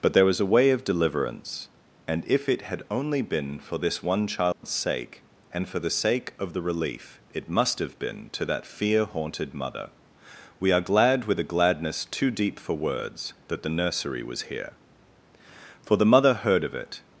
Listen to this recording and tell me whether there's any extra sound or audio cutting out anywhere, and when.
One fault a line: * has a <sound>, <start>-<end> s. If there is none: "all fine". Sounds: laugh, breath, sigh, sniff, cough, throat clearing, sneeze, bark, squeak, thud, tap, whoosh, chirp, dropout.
* has a dropout, 4.5-4.6 s